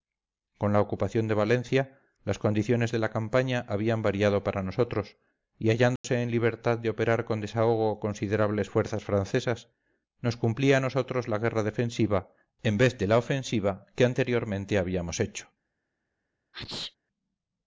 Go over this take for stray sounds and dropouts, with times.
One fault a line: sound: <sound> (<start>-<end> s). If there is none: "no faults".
sound: dropout (6.0-6.0 s)
sound: sneeze (16.5-17.0 s)